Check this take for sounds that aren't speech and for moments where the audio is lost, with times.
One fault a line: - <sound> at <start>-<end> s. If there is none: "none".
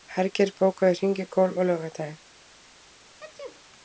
- sneeze at 3.2-3.6 s